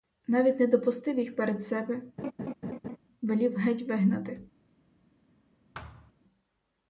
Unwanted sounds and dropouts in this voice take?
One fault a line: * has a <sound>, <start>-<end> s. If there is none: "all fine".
* has a laugh, 2.2-3.0 s
* has a thud, 5.7-6.1 s